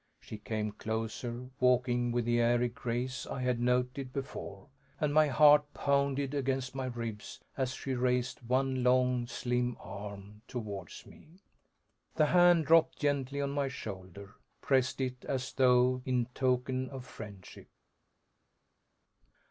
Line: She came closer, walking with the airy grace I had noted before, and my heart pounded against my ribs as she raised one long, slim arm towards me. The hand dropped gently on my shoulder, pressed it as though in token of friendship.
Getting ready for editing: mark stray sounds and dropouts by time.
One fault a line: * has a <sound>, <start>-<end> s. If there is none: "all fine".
all fine